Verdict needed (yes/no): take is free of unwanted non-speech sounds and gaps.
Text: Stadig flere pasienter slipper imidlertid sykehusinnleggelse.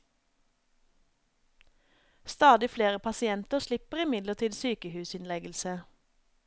yes